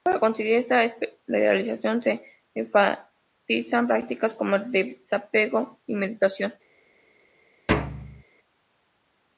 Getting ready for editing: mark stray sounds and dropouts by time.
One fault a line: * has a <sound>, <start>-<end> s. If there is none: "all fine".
* has a thud, 7.7-8.2 s